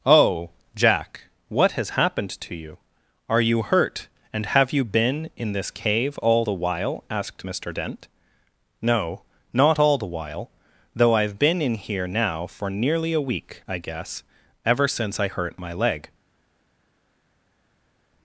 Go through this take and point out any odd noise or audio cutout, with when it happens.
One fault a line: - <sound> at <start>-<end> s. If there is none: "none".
none